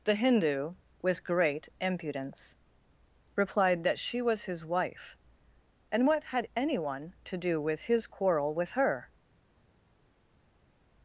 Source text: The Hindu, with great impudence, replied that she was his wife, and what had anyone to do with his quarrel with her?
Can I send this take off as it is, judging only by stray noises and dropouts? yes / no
yes